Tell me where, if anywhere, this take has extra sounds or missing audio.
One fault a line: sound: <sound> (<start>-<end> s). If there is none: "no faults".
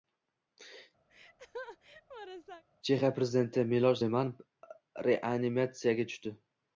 sound: laugh (1.1-2.6 s)